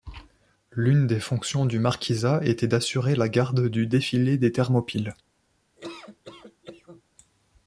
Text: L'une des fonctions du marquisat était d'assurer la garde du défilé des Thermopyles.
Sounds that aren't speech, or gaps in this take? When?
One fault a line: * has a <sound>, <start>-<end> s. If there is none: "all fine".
* has a laugh, 5.8-7.0 s